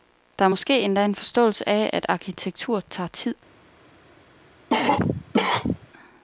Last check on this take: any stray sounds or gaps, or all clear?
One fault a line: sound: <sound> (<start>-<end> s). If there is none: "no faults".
sound: cough (4.7-5.9 s)